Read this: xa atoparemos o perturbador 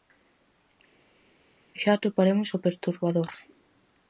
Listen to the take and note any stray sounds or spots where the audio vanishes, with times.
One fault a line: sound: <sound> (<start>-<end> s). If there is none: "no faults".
no faults